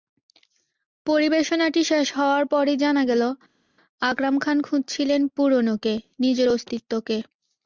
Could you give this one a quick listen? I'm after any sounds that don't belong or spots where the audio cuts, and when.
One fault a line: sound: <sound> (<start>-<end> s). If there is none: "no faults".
no faults